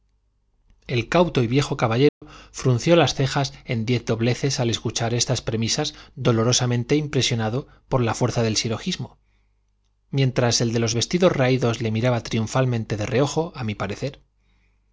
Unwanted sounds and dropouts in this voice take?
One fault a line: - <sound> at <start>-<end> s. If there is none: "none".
- dropout at 2.1-2.2 s